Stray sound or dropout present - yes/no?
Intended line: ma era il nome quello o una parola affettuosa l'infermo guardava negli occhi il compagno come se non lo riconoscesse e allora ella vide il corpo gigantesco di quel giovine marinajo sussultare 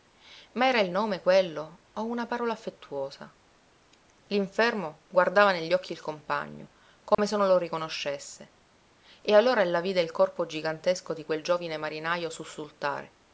yes